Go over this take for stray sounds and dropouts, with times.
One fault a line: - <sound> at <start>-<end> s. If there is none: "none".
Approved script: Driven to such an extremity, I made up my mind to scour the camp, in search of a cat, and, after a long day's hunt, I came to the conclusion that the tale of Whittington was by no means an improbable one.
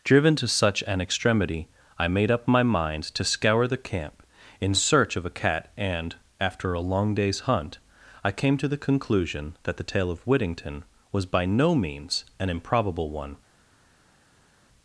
none